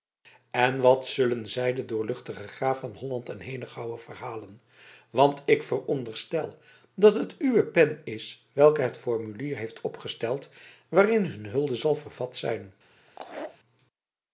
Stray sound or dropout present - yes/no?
yes